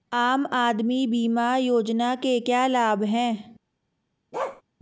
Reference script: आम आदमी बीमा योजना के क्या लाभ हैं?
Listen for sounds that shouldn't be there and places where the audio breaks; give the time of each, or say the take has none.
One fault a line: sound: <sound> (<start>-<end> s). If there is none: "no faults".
sound: bark (4.3-4.6 s)